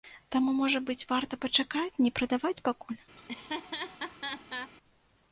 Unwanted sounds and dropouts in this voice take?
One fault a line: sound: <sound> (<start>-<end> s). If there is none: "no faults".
sound: laugh (3.2-4.7 s)